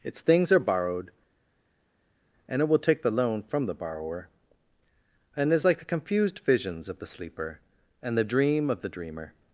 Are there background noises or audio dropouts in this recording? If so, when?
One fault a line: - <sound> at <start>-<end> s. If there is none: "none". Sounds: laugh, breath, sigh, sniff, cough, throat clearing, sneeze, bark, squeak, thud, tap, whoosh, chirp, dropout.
none